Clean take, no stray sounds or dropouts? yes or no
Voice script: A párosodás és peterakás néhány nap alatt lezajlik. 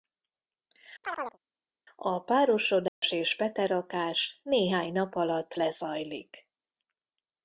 no